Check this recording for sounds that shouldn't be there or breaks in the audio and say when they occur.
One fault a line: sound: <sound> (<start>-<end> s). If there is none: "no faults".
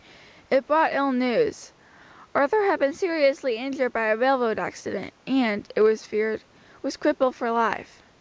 no faults